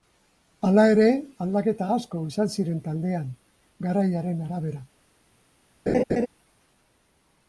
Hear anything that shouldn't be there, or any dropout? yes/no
yes